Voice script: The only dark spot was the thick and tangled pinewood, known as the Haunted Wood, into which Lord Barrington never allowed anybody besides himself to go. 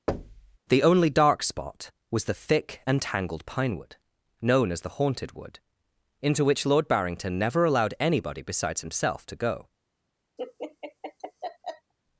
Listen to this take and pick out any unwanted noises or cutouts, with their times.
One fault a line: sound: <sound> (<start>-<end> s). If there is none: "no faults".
sound: thud (0.1-0.6 s)
sound: laugh (10.4-11.9 s)